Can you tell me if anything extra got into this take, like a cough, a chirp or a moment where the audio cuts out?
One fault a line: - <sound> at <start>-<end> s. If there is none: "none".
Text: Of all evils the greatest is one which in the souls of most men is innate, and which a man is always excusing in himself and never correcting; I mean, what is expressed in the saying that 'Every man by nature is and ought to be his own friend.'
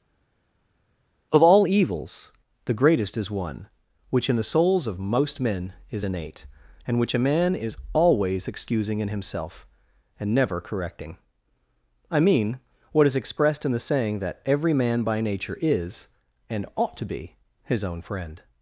none